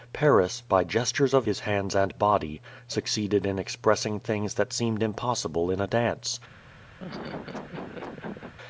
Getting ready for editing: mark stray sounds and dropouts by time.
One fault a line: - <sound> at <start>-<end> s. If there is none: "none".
- laugh at 7.0-8.5 s